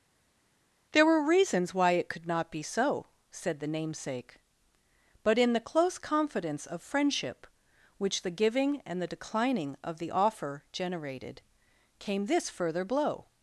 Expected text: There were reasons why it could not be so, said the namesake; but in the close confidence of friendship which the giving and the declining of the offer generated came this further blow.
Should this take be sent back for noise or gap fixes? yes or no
no